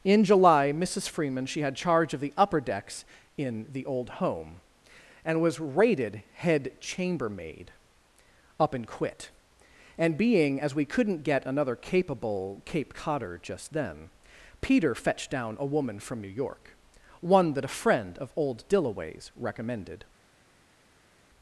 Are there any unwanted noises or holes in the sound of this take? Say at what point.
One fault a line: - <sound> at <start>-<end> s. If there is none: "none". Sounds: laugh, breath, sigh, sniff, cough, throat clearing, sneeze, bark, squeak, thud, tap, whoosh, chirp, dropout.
none